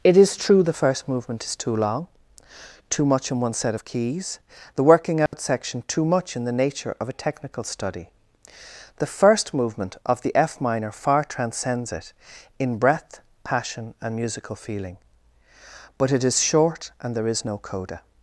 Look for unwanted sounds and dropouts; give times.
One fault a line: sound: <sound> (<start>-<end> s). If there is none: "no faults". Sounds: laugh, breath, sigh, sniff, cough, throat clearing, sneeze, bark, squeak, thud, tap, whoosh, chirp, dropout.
sound: dropout (5.3-5.3 s)